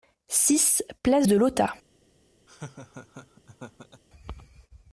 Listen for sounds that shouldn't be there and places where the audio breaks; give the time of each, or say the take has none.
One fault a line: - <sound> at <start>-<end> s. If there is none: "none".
- laugh at 2.5-4.0 s